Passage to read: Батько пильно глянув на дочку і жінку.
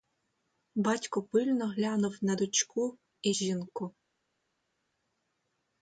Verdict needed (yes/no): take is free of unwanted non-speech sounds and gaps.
yes